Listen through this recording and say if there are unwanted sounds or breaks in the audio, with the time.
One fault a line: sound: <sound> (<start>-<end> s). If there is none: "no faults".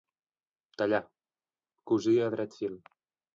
no faults